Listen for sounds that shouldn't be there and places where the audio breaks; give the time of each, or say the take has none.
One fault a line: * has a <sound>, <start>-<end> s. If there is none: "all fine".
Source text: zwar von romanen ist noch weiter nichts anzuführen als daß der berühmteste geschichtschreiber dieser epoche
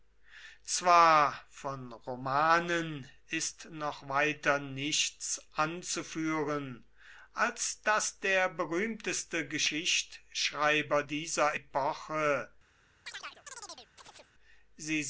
* has a chirp, 13.1-14.3 s